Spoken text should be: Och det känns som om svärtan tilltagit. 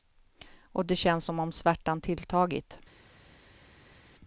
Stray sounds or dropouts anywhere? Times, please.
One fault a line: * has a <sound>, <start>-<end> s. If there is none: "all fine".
all fine